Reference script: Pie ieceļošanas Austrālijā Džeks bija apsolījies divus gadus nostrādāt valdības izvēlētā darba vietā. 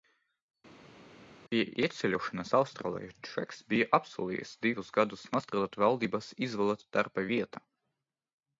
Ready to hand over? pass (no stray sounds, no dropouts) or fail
pass